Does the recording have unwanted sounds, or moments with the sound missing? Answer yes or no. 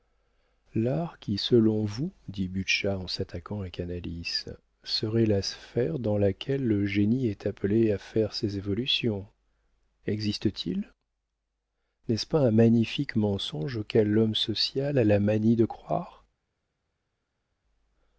no